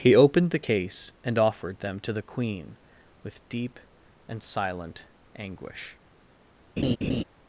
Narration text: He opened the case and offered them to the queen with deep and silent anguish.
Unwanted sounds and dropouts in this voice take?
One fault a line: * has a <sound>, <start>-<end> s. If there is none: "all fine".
* has a laugh, 6.8-7.2 s